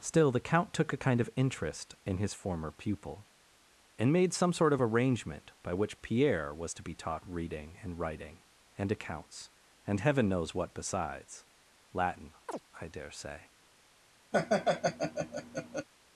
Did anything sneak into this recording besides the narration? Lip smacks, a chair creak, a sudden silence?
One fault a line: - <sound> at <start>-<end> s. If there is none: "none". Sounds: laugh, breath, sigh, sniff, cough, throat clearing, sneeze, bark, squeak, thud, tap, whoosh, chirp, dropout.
- chirp at 12.5-12.6 s
- laugh at 14.3-15.9 s